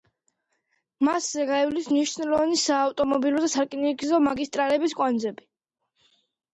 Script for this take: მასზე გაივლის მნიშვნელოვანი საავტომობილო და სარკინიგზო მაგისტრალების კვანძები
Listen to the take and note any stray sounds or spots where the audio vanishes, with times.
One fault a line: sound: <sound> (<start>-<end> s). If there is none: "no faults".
no faults